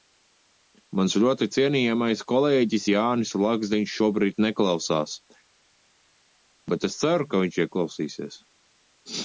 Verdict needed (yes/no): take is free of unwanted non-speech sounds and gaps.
yes